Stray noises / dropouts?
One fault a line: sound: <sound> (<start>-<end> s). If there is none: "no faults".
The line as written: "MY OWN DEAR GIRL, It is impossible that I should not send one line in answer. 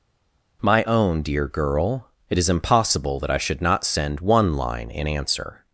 no faults